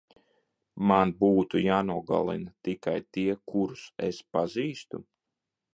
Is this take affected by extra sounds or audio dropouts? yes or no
no